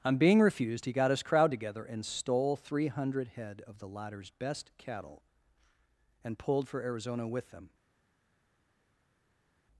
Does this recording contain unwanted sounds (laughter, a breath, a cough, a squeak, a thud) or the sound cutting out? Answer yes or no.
no